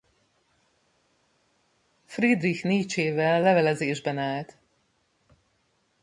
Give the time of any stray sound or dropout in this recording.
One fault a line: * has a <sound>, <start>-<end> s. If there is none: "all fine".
all fine